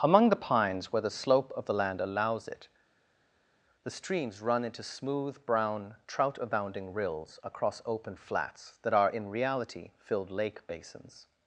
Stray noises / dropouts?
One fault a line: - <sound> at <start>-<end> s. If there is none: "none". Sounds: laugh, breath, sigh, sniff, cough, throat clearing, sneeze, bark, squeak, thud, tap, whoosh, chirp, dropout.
none